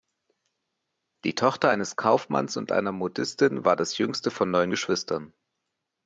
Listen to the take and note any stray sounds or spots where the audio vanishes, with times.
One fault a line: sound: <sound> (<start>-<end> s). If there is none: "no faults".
no faults